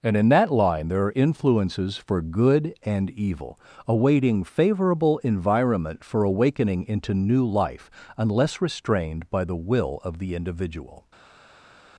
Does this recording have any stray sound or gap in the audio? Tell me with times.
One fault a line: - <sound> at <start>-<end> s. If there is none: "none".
none